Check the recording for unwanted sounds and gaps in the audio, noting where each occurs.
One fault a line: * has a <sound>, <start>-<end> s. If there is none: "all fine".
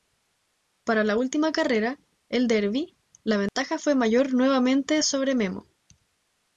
* has a dropout, 3.5-3.6 s